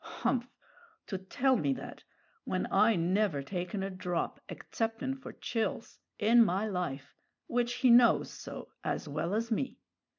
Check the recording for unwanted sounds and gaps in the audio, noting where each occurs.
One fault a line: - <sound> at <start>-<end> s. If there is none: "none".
none